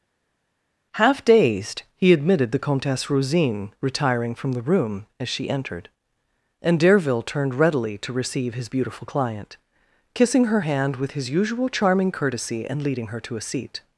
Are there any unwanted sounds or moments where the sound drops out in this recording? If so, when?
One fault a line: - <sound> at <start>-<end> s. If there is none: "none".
none